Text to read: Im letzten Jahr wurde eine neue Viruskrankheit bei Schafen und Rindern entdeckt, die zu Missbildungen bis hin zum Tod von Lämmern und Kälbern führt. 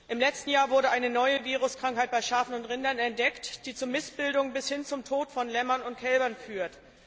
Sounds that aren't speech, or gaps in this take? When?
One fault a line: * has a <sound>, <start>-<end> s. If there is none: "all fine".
all fine